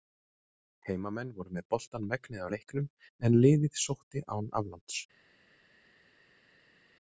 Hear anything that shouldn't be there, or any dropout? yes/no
no